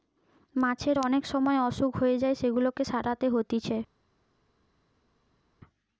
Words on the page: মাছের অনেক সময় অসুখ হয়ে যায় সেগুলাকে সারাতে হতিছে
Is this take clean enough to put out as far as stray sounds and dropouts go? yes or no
yes